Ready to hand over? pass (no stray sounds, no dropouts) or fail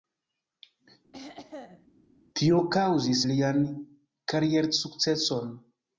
fail